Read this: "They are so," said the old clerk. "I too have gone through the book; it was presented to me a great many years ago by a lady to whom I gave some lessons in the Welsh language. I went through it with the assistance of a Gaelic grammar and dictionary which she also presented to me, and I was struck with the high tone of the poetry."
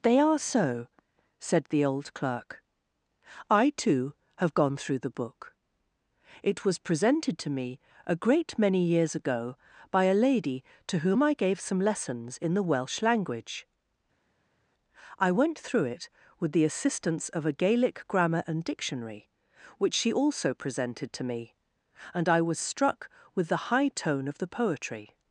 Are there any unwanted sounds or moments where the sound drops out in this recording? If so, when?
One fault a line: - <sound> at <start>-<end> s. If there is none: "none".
none